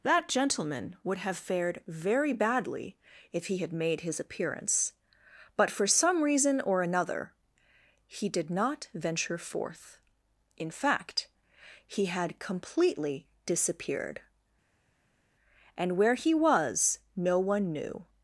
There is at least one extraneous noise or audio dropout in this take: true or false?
false